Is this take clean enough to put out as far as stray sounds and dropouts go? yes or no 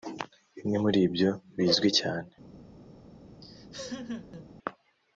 no